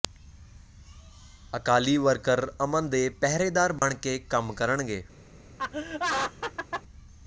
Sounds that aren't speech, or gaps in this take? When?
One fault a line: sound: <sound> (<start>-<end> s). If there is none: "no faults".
sound: dropout (3.8-3.8 s)
sound: laugh (5.6-6.8 s)